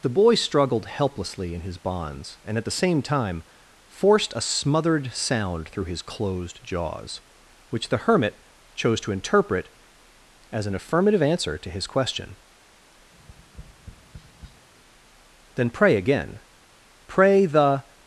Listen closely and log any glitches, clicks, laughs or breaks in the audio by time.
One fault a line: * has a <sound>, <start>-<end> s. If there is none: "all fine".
* has a tap, 13.1-14.7 s